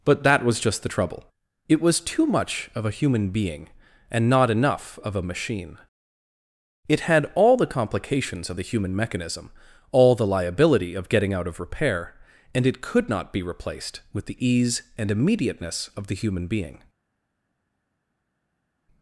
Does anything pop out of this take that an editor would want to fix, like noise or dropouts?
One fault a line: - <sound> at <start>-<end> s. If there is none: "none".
none